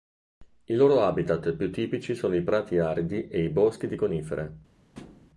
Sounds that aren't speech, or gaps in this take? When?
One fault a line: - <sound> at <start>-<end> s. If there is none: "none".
- thud at 4.9-5.3 s